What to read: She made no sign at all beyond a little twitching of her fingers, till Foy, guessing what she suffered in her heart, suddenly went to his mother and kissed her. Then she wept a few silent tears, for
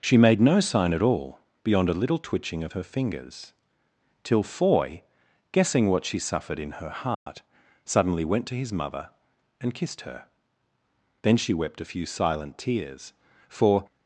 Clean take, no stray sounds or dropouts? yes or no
no